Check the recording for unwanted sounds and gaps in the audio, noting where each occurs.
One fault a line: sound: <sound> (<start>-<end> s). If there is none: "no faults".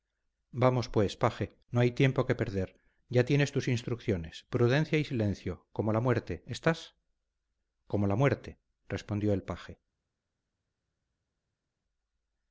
no faults